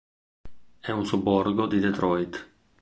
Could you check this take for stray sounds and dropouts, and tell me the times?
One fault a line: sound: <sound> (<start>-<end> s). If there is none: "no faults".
no faults